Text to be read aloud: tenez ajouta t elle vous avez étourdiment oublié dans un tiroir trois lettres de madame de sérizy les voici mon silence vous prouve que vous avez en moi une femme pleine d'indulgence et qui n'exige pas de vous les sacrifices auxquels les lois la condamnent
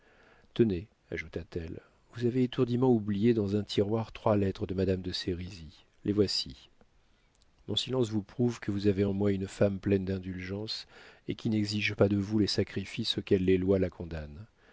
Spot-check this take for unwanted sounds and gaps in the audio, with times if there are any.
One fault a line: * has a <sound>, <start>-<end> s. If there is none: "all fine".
all fine